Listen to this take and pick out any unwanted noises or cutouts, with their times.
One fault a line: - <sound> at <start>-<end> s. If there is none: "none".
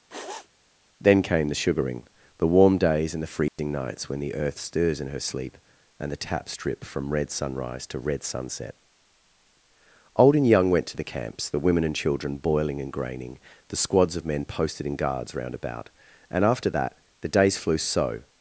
- sniff at 0.1-0.5 s
- dropout at 3.5-3.6 s